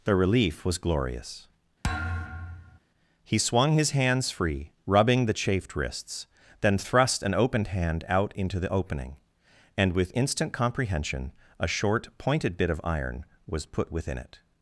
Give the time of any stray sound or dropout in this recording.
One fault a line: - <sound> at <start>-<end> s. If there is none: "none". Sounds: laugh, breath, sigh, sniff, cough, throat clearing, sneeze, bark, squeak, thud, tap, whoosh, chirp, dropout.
- thud at 1.8-2.8 s